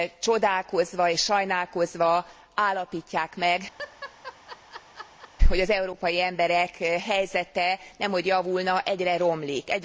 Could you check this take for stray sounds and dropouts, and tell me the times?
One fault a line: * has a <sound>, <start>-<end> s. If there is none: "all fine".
* has a laugh, 3.8-5.3 s